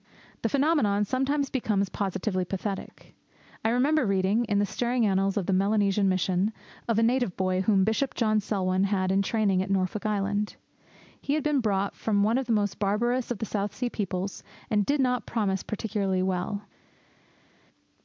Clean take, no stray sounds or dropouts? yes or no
yes